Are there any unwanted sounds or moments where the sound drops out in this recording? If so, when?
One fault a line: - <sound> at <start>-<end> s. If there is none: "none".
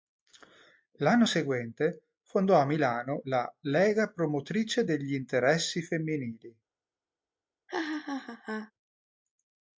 - laugh at 7.7-8.7 s